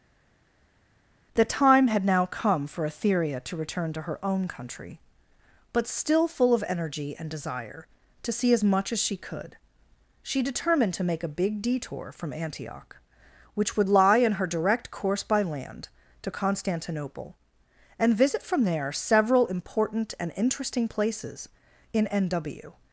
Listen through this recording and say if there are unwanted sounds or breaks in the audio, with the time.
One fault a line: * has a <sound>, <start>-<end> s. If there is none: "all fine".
all fine